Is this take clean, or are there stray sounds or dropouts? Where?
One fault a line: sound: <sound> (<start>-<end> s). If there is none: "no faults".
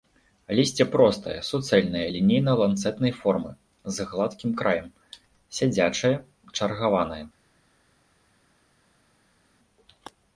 no faults